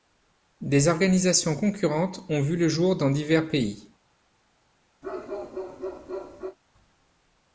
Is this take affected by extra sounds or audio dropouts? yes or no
yes